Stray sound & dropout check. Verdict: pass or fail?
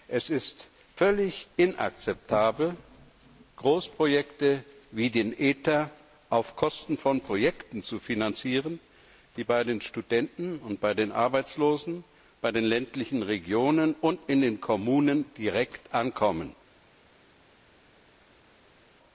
pass